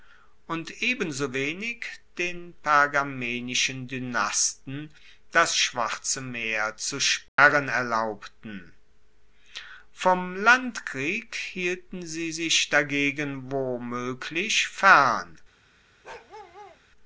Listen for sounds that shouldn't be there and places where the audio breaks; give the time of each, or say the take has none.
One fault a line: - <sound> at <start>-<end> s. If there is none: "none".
- dropout at 7.3-7.4 s
- bark at 16.0-16.8 s